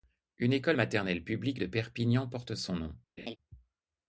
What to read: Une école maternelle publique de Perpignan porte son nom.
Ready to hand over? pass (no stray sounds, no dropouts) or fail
fail